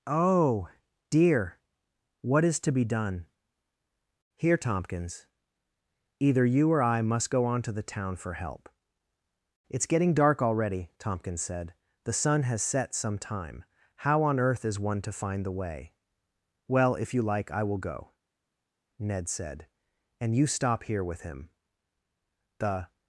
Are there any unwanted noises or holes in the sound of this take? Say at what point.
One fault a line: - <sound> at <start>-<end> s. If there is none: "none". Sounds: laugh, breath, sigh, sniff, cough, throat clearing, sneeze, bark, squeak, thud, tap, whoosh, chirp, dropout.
none